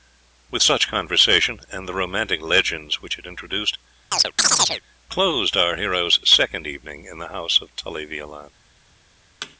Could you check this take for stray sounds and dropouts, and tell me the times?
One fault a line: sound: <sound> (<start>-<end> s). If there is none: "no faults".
sound: chirp (4.1-4.8 s)
sound: thud (9.4-9.6 s)